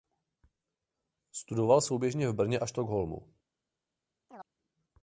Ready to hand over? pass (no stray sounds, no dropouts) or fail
fail